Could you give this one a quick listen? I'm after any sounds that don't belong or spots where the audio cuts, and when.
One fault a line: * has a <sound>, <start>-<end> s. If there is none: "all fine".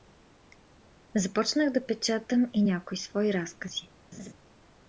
* has a laugh, 4.1-4.3 s